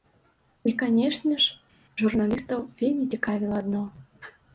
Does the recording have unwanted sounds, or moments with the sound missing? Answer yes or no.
no